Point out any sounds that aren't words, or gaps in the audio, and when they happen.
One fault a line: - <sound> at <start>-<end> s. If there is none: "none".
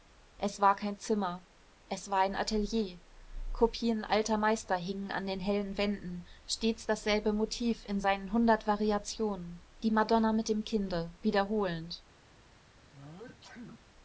- sneeze at 12.9-13.9 s